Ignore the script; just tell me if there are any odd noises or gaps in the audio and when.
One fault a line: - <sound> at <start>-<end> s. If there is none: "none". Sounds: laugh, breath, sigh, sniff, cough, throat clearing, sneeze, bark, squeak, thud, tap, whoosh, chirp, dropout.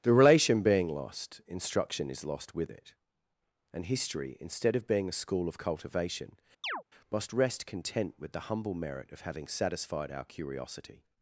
- chirp at 6.6-6.8 s